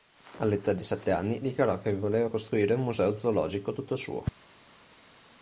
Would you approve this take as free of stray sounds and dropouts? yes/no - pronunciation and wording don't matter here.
yes